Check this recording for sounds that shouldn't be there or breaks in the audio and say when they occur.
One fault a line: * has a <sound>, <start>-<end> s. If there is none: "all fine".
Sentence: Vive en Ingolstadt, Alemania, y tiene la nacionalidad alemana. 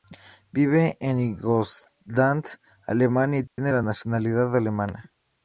* has a dropout, 3.5-3.6 s